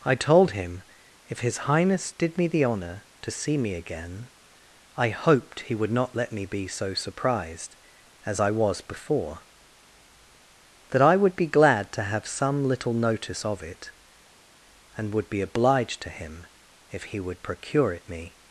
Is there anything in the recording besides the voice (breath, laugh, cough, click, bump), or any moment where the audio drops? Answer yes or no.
no